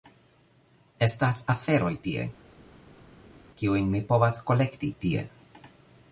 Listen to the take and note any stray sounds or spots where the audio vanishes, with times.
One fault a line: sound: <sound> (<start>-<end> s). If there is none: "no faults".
no faults